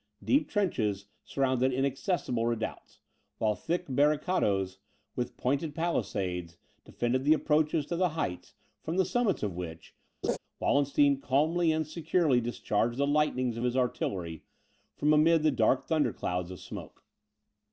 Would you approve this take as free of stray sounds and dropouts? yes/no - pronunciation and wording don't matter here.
no